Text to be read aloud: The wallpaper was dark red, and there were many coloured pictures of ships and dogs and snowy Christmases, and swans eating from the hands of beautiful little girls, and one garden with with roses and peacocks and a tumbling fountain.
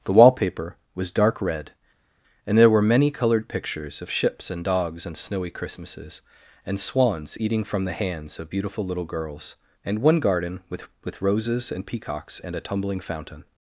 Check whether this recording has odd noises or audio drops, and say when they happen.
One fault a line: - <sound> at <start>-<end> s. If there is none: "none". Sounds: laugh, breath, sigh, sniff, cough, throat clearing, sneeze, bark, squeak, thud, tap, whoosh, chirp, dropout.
none